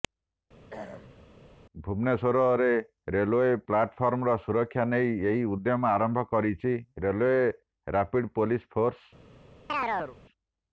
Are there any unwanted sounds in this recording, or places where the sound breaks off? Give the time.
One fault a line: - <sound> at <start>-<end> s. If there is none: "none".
- throat clearing at 0.7-1.2 s
- chirp at 9.7-10.2 s